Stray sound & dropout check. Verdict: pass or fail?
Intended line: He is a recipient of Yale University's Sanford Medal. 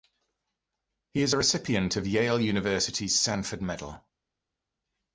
pass